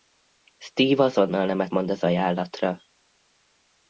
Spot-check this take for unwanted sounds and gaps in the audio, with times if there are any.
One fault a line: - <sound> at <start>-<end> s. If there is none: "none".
none